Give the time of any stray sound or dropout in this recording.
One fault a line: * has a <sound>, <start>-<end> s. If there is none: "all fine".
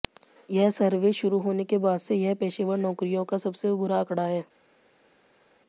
all fine